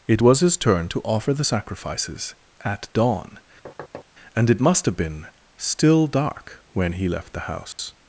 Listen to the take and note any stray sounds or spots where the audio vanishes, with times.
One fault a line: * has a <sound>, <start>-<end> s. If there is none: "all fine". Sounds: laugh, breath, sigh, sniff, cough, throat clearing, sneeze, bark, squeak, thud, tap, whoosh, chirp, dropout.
* has a thud, 3.7-4.1 s
* has a dropout, 7.7-7.8 s